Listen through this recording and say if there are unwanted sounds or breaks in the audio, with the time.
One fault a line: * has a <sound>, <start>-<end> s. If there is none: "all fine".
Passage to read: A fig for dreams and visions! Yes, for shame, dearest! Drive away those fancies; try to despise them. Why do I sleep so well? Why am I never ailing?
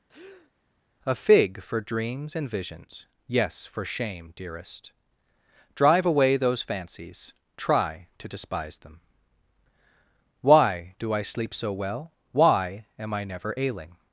* has a breath, 0.1-0.5 s